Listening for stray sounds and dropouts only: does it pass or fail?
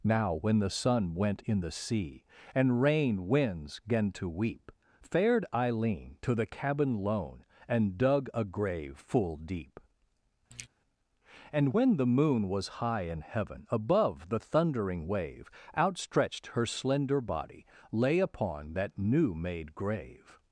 fail